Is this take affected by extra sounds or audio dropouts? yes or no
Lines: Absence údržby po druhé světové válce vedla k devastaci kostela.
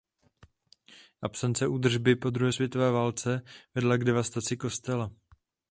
no